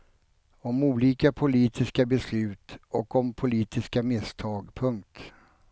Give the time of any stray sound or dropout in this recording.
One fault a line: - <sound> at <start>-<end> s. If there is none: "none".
none